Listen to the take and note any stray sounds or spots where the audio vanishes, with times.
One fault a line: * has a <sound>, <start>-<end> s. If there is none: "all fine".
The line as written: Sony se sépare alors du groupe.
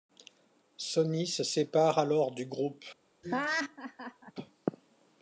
* has a laugh, 3.2-4.3 s